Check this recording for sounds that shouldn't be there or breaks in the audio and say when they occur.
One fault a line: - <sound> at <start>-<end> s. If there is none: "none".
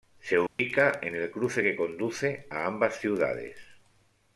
- dropout at 0.5-0.6 s